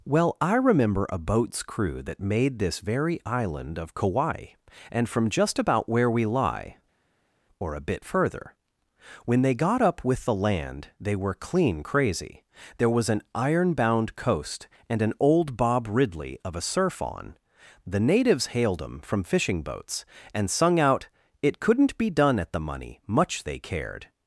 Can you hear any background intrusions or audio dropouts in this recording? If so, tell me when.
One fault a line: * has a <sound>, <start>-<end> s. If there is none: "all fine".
all fine